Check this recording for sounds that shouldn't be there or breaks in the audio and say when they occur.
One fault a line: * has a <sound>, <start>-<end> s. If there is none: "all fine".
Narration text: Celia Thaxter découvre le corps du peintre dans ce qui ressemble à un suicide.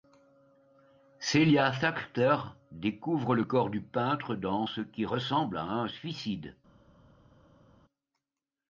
all fine